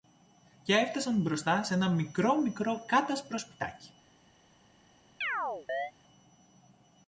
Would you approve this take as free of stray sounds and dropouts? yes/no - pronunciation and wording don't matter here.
no